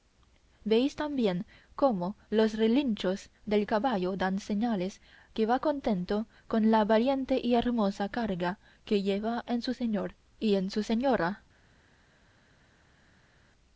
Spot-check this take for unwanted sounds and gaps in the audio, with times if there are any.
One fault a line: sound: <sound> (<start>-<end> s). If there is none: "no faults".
no faults